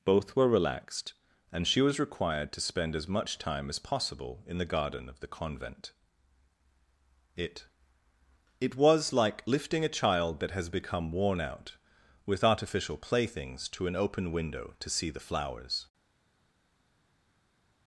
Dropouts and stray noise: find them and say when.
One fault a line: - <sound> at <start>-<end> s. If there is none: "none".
none